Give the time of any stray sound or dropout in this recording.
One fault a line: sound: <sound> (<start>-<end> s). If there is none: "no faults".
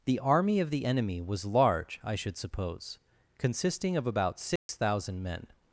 sound: dropout (4.6-4.7 s)